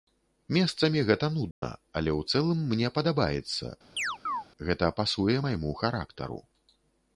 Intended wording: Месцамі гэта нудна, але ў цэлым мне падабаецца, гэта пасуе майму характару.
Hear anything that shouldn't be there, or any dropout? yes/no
yes